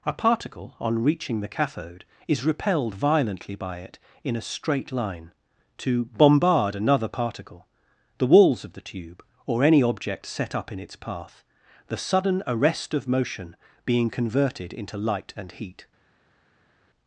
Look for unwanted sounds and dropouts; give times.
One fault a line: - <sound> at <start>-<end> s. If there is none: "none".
none